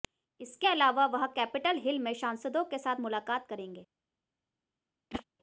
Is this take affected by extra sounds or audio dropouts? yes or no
yes